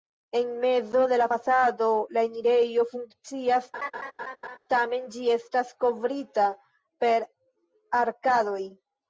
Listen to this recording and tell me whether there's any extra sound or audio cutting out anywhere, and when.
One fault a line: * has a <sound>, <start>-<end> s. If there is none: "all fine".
* has a laugh, 3.7-4.6 s